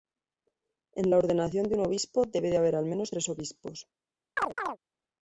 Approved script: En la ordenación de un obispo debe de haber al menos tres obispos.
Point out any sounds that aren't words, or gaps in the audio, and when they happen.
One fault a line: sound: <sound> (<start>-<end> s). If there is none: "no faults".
sound: chirp (4.4-4.8 s)